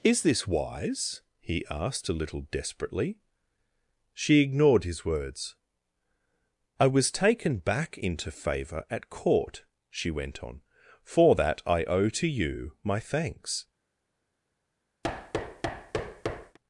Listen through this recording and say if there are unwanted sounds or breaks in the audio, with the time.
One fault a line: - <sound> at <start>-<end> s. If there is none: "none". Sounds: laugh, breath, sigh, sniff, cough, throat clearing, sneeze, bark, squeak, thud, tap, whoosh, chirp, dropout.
- thud at 15.0-16.6 s